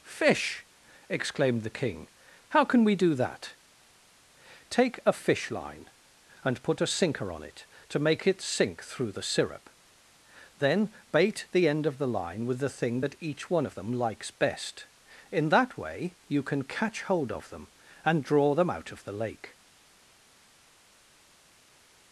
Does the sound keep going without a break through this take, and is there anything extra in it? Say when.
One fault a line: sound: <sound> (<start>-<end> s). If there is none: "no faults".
no faults